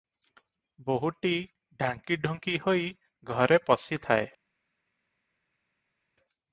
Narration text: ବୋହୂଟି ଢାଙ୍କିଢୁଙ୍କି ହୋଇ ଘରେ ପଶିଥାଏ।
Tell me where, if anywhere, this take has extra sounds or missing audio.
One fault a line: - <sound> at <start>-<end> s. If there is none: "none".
none